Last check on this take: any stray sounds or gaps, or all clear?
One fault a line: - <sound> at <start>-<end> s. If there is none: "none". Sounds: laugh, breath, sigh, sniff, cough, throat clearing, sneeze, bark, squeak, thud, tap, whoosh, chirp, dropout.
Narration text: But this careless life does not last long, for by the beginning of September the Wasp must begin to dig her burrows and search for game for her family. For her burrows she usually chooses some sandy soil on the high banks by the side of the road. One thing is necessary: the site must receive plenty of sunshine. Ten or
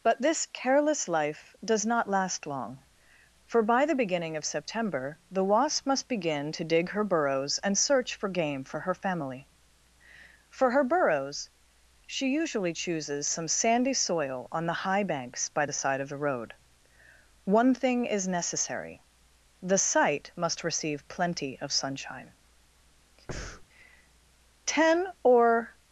- breath at 23.3-23.7 s